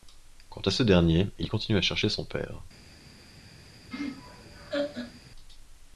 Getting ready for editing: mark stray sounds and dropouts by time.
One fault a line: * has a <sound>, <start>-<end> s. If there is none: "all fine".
* has a laugh, 3.9-5.2 s